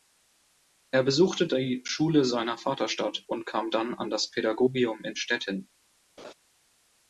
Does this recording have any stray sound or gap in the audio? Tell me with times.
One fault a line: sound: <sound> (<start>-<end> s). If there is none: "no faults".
sound: laugh (6.2-6.3 s)